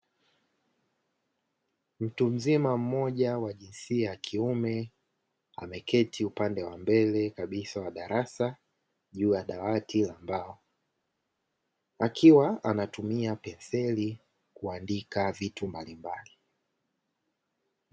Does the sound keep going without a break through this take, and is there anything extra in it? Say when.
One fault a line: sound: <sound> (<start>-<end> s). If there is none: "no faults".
no faults